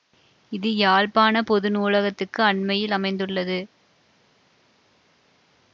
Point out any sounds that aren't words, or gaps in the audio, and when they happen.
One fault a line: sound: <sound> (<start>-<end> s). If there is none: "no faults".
no faults